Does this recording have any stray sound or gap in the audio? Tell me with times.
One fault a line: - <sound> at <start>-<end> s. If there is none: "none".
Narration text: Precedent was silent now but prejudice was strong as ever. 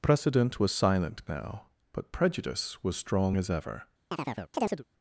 - chirp at 4.1-4.8 s